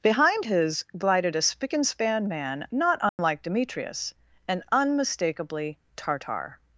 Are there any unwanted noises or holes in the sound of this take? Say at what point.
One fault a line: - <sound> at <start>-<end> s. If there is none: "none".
- dropout at 3.1-3.2 s